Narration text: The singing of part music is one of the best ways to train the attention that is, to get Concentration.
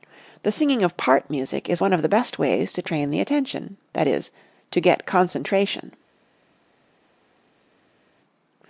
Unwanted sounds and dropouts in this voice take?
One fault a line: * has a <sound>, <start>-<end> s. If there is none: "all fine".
all fine